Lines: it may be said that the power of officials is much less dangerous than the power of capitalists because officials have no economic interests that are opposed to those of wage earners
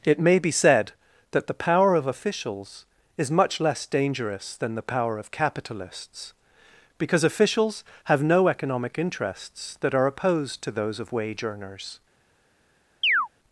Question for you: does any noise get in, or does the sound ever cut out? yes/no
yes